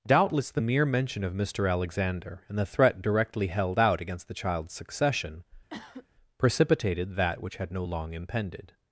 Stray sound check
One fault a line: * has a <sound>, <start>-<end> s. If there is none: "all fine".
* has a cough, 5.7-6.1 s